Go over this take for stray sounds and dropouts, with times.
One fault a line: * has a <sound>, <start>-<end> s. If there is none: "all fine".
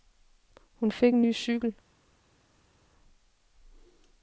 all fine